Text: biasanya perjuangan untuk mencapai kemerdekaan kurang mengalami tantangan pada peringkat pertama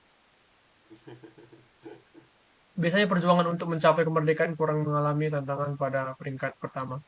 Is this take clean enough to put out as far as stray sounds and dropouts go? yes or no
no